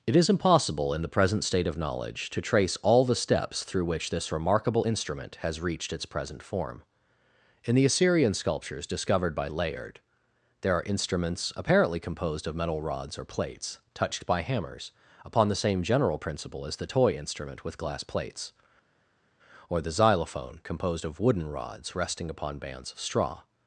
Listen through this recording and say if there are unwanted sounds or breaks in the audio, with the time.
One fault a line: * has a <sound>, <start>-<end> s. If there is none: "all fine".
all fine